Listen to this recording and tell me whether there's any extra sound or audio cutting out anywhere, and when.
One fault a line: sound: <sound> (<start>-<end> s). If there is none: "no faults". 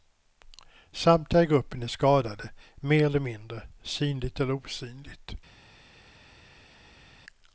no faults